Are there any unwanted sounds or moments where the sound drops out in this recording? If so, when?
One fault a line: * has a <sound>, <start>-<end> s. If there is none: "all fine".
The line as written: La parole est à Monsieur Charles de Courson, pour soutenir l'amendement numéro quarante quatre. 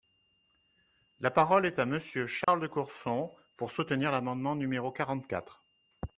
* has a dropout, 2.4-2.5 s